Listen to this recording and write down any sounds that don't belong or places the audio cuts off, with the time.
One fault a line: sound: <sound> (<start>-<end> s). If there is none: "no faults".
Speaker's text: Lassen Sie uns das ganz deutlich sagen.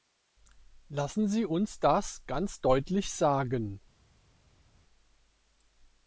no faults